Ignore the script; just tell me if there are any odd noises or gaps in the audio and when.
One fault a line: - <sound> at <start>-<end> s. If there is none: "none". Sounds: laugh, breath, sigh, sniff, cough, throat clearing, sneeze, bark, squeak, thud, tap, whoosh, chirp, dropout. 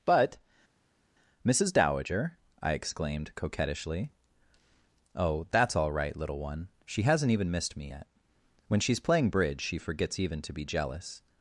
none